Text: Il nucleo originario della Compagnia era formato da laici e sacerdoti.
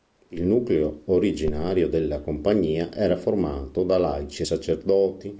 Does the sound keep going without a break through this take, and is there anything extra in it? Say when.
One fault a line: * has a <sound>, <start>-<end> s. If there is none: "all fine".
all fine